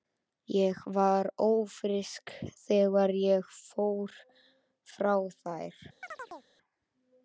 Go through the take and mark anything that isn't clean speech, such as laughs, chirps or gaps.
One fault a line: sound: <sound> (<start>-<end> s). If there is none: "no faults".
sound: chirp (6.0-6.5 s)